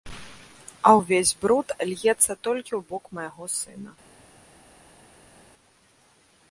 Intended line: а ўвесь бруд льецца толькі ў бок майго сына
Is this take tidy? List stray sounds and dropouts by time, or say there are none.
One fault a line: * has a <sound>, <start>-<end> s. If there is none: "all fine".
all fine